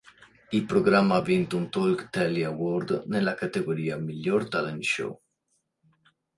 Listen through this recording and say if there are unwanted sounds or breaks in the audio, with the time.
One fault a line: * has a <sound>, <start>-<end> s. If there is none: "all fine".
all fine